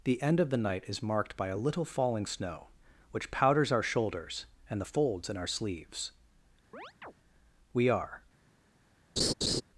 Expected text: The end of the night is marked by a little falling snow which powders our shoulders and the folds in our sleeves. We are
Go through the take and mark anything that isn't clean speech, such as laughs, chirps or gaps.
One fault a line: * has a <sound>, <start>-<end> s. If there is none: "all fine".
* has a chirp, 6.7-7.1 s
* has a laugh, 9.2-9.6 s